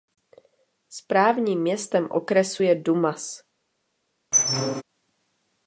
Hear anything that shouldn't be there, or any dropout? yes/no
yes